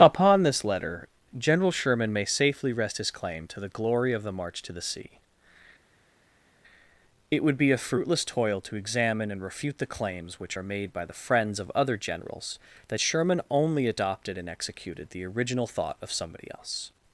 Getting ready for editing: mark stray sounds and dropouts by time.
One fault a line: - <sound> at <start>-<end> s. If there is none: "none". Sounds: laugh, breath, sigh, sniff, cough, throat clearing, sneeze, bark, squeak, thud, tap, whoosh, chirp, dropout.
none